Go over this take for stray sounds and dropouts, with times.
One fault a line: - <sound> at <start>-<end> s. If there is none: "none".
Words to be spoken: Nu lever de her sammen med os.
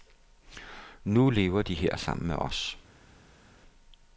none